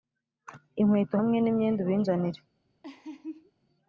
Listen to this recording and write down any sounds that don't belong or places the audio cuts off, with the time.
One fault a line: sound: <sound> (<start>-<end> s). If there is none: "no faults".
sound: laugh (2.8-3.5 s)